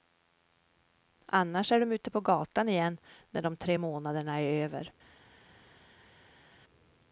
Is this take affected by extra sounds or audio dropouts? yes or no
no